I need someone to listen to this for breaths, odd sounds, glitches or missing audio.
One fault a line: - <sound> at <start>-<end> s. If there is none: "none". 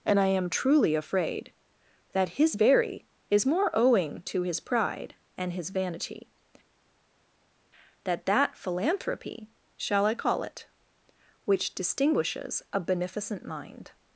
none